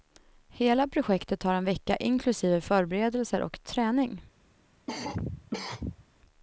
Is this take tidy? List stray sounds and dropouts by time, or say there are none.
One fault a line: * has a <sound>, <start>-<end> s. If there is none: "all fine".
* has a cough, 4.9-6.0 s